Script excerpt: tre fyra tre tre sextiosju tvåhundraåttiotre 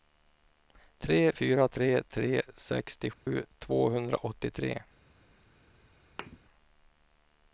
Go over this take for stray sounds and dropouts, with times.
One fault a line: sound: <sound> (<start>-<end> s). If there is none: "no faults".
sound: dropout (3.1-3.3 s)
sound: thud (6.2-6.4 s)